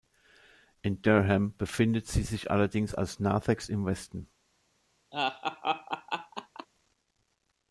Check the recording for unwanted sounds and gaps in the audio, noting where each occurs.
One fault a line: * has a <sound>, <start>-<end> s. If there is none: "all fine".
* has a laugh, 5.1-6.7 s